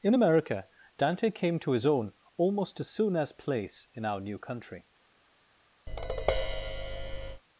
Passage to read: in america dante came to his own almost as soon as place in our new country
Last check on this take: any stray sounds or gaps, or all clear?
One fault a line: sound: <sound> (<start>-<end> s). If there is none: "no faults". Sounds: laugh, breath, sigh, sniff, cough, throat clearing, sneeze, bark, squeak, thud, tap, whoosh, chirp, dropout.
sound: tap (5.9-7.4 s)